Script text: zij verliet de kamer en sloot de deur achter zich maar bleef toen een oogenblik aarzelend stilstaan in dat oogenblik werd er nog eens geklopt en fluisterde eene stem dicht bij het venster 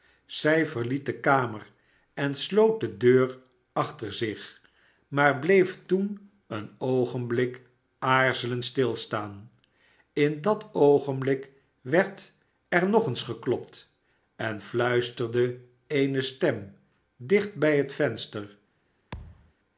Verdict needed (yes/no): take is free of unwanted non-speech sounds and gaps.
no